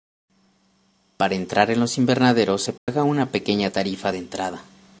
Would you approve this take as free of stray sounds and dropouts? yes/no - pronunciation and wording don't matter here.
no